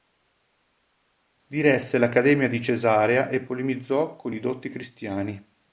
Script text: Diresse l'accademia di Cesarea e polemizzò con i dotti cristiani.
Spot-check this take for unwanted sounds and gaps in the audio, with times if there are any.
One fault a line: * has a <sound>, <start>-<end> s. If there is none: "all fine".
all fine